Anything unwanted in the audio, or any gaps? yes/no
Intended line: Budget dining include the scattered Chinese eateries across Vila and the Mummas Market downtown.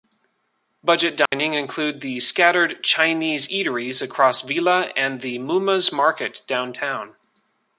yes